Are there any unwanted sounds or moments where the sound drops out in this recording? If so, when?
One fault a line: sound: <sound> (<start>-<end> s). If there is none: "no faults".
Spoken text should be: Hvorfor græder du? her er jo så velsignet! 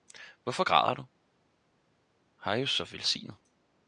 no faults